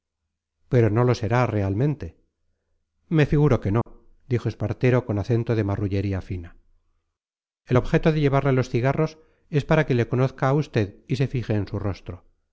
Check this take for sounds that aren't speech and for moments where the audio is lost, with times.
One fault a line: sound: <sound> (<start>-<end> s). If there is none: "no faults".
sound: dropout (3.8-3.9 s)